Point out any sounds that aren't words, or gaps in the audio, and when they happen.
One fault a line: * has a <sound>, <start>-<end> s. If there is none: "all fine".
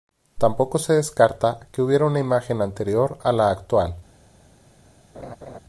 * has a laugh, 5.1-5.6 s